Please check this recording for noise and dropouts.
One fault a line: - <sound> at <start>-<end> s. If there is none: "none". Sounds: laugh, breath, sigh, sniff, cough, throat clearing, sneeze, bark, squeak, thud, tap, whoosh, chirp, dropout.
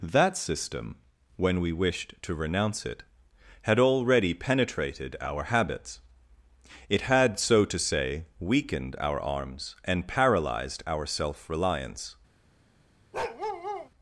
- bark at 13.1-13.9 s